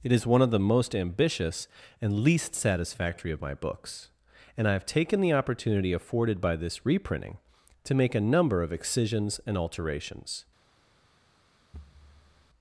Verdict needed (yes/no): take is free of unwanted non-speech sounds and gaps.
no